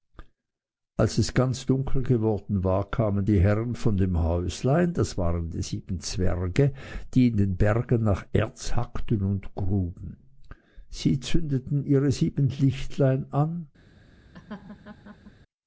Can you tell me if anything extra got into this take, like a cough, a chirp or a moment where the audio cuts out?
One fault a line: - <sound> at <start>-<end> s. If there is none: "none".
- laugh at 14.3-15.3 s